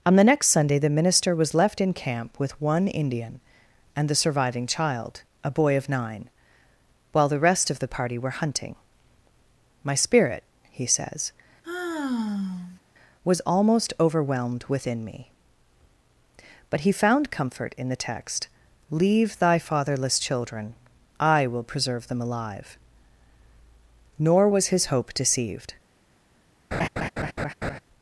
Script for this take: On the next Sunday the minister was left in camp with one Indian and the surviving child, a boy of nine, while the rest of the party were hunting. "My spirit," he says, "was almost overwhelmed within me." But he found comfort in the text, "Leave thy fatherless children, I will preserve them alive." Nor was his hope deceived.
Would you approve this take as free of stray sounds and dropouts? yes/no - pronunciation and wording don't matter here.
no